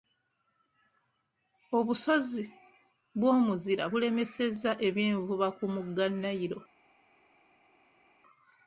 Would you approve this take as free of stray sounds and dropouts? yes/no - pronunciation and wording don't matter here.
yes